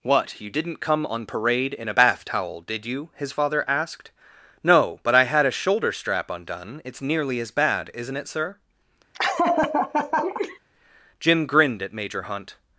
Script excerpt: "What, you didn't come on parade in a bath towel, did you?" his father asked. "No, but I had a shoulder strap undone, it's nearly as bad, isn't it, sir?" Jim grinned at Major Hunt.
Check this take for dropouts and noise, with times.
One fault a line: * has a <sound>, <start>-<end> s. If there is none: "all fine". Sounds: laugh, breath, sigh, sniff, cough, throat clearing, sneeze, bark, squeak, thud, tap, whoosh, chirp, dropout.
* has a laugh, 9.1-10.6 s